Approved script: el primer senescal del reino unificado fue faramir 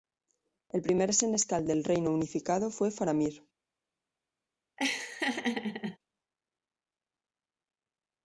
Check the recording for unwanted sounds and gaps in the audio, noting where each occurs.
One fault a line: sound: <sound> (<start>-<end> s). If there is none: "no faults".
sound: laugh (4.8-6.0 s)